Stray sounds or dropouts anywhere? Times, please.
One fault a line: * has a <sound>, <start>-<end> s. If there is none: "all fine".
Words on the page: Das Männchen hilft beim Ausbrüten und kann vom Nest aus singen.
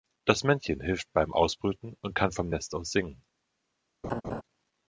* has a laugh, 4.0-4.4 s